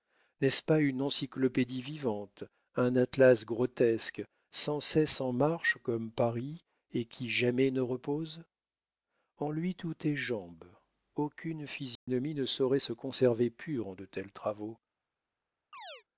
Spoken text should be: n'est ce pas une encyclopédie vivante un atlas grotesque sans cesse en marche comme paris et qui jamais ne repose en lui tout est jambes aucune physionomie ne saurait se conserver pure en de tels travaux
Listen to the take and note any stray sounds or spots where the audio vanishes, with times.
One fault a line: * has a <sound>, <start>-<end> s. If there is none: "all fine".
* has a dropout, 12.0-12.1 s
* has a chirp, 15.7-16.0 s